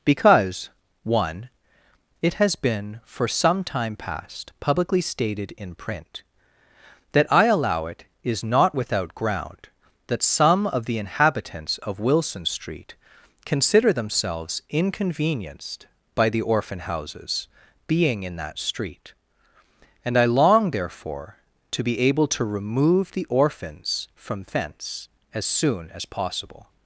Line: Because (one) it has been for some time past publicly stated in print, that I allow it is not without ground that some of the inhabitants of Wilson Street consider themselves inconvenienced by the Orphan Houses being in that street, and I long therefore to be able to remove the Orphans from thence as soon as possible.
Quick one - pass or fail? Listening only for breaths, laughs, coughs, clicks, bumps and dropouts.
pass